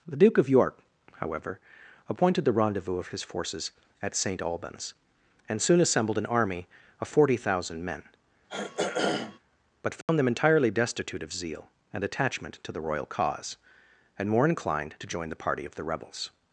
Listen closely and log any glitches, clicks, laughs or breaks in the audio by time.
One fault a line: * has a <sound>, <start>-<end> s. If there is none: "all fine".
* has a throat clearing, 8.5-9.4 s
* has a dropout, 10.0-10.1 s